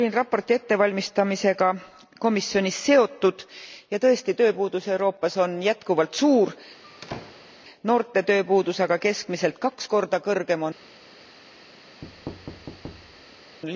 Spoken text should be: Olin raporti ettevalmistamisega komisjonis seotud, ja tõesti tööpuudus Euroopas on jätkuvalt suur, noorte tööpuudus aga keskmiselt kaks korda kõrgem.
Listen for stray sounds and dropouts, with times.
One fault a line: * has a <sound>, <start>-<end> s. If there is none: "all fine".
* has a squeak, 6.8-7.5 s
* has a thud, 12.0-13.6 s